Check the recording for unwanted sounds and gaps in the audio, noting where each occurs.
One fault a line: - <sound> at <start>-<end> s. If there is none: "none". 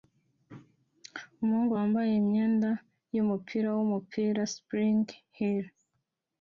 none